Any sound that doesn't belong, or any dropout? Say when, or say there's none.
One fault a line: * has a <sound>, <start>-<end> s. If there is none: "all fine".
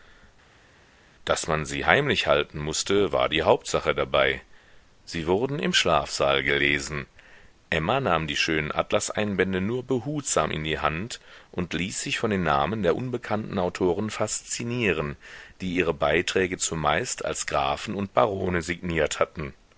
all fine